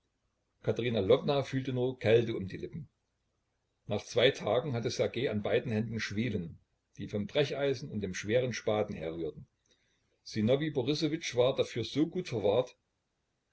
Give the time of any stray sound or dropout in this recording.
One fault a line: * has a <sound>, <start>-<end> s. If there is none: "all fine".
all fine